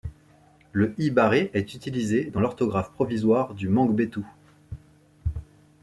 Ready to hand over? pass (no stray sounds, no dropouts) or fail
pass